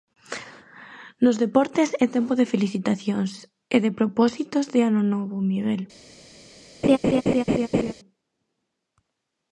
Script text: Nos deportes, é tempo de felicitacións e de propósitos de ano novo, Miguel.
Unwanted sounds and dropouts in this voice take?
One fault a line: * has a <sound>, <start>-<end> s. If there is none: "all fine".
* has a laugh, 6.8-7.9 s